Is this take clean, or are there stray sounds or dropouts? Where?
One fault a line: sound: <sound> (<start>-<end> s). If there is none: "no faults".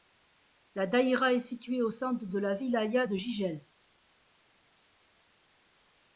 no faults